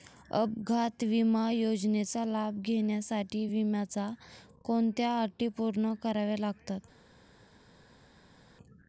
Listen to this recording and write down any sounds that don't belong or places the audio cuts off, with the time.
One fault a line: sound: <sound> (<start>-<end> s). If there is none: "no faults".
no faults